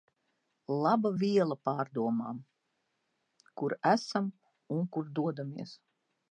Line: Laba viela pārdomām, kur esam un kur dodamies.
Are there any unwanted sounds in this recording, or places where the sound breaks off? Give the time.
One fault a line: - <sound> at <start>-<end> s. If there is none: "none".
none